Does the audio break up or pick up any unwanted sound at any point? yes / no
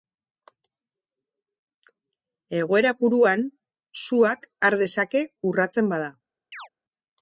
yes